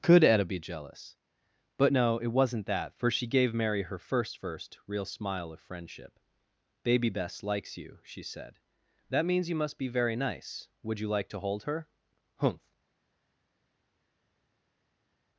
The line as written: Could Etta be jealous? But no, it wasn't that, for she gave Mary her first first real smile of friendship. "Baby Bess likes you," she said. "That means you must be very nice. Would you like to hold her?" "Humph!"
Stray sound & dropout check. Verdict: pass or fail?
pass